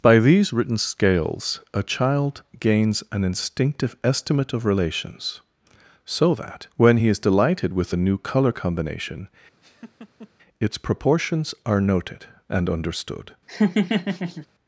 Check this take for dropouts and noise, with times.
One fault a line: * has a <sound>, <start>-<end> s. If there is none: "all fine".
* has a laugh, 9.6-10.3 s
* has a laugh, 13.5-14.5 s